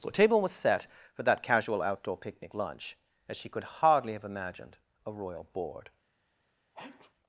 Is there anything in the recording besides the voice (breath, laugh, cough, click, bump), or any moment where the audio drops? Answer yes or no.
yes